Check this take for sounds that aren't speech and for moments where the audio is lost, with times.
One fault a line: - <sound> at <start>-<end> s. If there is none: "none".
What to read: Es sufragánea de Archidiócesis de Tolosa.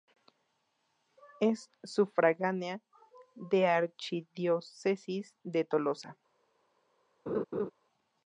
- laugh at 7.3-7.7 s